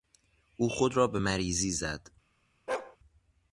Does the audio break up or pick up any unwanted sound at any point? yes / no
yes